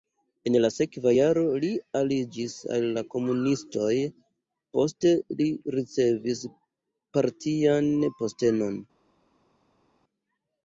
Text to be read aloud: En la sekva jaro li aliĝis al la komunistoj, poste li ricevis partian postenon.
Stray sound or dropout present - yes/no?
no